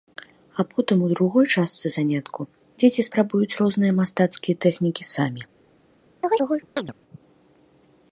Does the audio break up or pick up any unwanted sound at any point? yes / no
yes